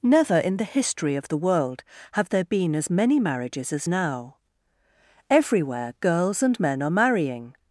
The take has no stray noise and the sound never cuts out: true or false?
true